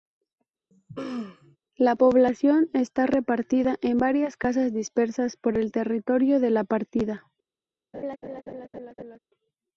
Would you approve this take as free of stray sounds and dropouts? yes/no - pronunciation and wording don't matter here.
no